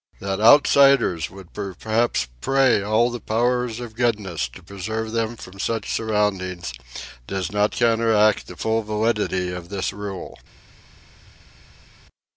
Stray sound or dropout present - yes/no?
no